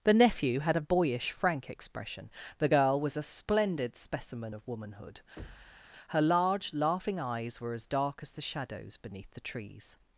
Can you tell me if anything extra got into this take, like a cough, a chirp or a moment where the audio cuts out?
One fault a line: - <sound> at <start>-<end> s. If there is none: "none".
- thud at 5.4-5.9 s